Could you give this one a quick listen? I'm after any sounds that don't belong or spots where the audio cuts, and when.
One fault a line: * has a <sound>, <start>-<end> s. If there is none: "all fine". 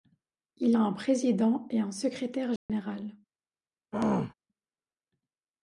* has a dropout, 2.6-2.7 s
* has a throat clearing, 3.9-4.3 s